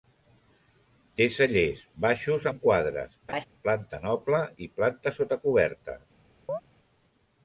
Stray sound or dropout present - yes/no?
yes